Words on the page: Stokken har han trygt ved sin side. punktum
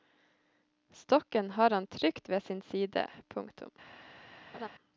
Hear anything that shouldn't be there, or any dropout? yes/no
yes